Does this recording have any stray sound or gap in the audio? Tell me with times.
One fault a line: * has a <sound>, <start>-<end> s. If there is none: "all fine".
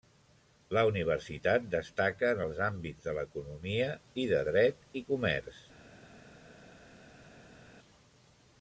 all fine